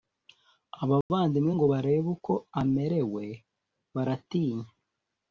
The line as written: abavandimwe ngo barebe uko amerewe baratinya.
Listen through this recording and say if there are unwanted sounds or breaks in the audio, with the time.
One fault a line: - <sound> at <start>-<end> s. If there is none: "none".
- dropout at 1.0-1.1 s